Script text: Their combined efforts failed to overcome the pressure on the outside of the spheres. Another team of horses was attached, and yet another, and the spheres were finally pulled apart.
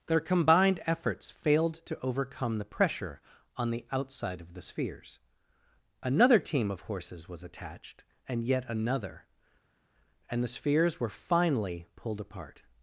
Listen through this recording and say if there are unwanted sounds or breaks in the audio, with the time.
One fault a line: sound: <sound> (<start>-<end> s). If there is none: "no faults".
no faults